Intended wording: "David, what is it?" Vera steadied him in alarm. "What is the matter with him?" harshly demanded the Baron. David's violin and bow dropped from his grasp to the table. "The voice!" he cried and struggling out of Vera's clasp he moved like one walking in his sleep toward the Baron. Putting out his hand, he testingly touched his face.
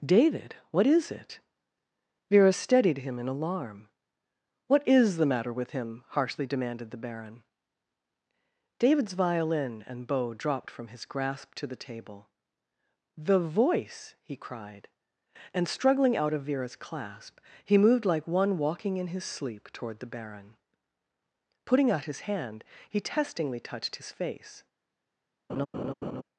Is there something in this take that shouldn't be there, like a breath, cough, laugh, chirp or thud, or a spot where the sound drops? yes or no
yes